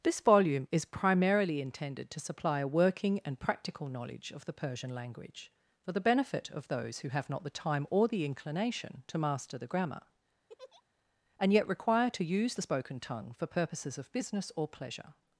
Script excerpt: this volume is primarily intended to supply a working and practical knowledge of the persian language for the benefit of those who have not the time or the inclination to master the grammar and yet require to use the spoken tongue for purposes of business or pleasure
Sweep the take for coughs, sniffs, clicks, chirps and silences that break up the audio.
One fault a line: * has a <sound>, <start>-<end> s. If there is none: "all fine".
* has a laugh, 10.5-10.8 s